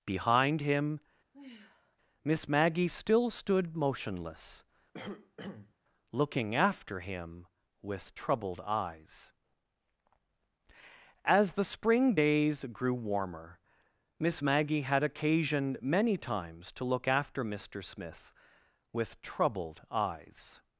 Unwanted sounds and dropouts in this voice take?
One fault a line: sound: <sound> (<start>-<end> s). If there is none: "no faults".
sound: sigh (1.3-2.0 s)
sound: cough (4.9-5.7 s)